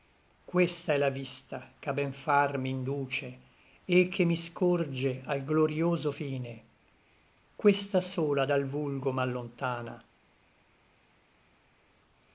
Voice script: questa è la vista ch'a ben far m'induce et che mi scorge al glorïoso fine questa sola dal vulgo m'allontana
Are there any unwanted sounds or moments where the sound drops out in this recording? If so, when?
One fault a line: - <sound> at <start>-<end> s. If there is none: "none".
none